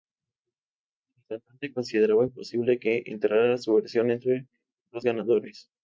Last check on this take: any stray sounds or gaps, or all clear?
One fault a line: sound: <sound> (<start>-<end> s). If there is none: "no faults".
no faults